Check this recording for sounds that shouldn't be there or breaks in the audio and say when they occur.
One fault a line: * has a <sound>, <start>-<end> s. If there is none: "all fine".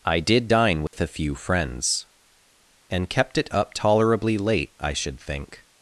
* has a dropout, 0.9-0.9 s